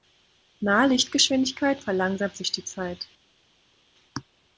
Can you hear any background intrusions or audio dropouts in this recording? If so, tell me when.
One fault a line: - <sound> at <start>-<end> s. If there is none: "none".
none